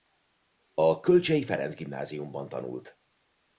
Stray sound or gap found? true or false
false